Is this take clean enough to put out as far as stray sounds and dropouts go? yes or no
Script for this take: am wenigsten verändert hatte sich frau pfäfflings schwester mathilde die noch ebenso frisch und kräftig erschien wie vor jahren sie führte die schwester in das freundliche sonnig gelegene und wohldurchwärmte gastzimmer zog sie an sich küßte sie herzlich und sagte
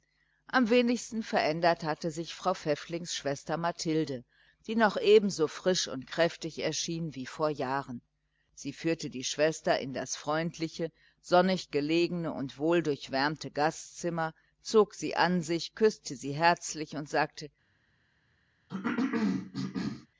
no